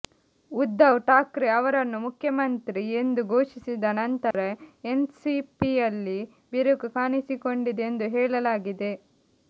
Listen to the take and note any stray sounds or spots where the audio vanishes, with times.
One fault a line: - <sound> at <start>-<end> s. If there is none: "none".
- dropout at 4.3-4.3 s